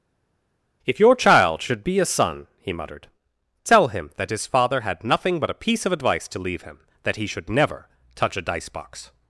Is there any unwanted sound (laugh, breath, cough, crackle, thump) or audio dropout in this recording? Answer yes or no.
no